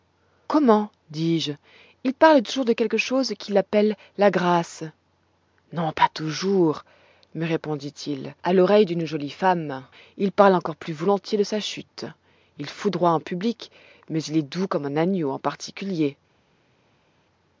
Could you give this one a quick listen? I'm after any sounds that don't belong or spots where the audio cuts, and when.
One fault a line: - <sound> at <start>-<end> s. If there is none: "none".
none